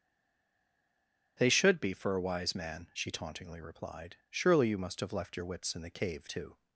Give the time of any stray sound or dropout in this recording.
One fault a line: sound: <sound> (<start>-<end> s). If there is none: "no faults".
no faults